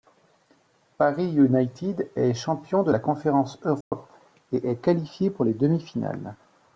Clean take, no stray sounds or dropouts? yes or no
no